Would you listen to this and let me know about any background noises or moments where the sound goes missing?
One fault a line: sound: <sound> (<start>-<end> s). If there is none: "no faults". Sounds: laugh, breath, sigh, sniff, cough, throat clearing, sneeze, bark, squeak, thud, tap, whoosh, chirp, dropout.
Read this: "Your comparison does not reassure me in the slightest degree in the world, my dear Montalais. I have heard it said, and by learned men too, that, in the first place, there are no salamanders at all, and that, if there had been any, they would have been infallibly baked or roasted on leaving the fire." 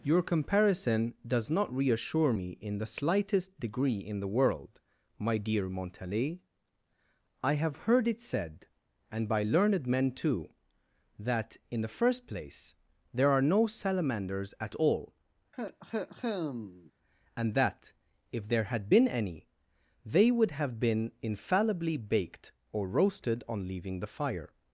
sound: cough (15.5-16.9 s)